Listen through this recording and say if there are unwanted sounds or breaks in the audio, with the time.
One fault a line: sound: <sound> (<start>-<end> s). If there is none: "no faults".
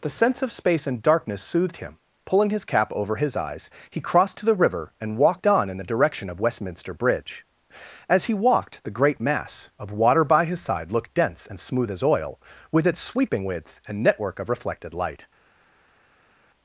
no faults